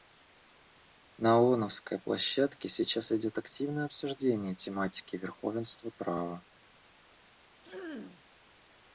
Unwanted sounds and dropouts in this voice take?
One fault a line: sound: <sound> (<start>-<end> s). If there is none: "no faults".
sound: throat clearing (7.6-8.2 s)